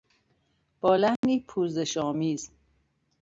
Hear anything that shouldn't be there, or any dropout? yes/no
yes